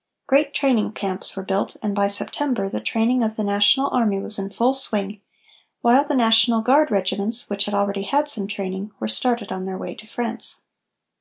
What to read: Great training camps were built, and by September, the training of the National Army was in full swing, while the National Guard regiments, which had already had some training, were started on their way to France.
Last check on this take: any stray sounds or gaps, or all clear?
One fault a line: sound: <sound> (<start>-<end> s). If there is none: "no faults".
no faults